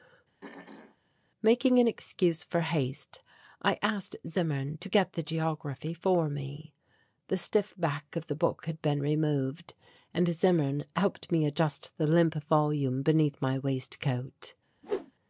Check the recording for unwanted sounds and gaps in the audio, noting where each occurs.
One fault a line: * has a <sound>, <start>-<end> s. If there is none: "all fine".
* has a throat clearing, 0.4-1.0 s
* has a whoosh, 14.8-15.1 s